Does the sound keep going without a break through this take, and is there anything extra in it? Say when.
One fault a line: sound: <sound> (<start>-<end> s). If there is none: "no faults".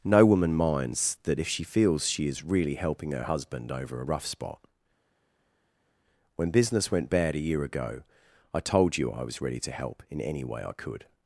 no faults